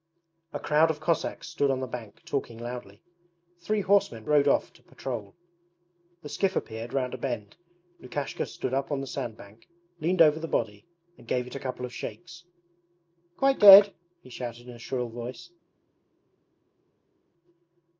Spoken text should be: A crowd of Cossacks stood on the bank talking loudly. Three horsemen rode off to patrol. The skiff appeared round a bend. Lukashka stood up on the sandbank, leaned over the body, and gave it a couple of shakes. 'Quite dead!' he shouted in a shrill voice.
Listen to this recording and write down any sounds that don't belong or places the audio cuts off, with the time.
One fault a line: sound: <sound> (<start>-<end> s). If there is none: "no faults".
no faults